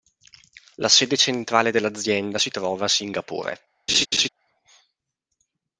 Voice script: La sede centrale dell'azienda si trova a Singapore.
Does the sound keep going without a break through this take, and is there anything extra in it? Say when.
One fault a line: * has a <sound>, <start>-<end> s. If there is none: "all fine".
* has a laugh, 3.9-4.3 s